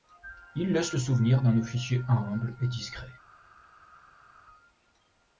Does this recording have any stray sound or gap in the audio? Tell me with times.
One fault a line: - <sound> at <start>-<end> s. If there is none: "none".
none